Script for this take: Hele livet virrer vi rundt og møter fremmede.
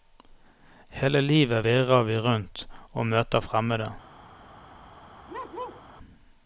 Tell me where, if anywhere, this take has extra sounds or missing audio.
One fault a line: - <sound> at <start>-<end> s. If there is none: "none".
- bark at 5.3-5.8 s